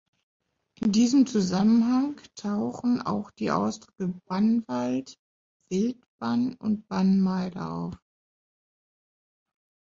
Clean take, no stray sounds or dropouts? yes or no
yes